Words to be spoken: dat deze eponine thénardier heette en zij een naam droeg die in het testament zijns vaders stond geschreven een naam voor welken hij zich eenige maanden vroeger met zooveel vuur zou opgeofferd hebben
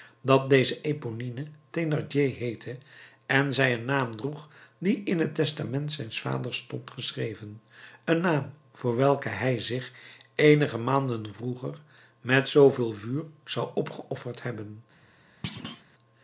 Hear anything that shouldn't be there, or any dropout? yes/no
yes